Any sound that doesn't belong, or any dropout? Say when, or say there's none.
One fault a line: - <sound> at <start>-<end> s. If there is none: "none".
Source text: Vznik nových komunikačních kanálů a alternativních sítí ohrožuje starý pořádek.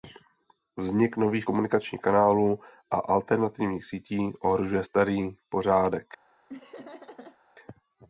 - laugh at 6.5-7.4 s